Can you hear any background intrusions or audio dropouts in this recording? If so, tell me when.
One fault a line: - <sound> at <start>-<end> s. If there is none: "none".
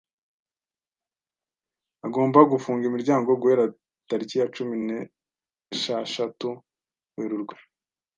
none